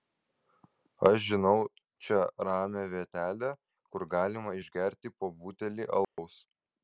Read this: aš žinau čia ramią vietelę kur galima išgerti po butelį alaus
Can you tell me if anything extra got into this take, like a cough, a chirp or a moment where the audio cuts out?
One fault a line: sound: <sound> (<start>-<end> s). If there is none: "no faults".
sound: dropout (6.0-6.2 s)